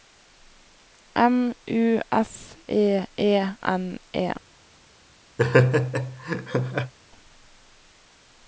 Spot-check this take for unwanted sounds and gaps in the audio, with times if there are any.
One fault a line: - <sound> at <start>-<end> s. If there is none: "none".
- laugh at 5.4-6.9 s